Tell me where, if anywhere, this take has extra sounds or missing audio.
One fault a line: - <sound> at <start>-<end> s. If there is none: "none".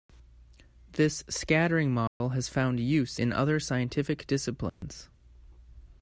- dropout at 2.1-2.2 s
- dropout at 4.7-4.8 s